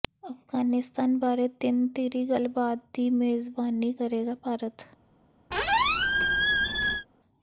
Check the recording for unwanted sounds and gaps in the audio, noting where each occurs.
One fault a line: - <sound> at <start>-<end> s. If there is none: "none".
- squeak at 5.5-7.1 s